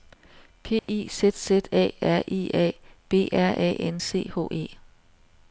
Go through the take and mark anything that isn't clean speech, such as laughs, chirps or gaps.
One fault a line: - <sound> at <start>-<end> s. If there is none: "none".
- dropout at 0.8-0.9 s